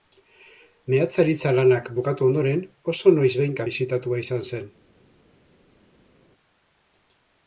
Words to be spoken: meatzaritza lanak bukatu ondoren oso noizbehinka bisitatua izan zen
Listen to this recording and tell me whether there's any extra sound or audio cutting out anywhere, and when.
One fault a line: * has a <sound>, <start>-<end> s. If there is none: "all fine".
all fine